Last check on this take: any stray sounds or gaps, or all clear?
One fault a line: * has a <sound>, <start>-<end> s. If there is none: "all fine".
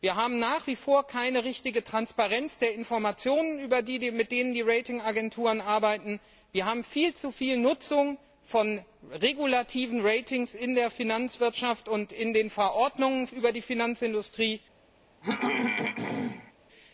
* has a throat clearing, 15.2-16.5 s